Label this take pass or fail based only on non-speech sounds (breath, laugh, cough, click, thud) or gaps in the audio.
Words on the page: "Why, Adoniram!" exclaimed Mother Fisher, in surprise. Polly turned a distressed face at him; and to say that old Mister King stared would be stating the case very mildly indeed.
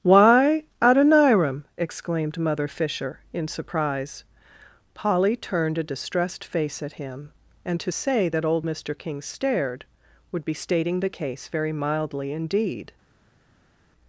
pass